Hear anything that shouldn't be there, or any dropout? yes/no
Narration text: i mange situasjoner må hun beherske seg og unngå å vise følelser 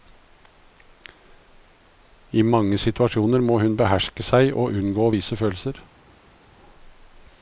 no